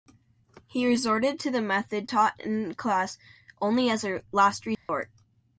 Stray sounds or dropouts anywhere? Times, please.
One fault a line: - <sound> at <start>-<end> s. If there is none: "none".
- dropout at 4.7-4.9 s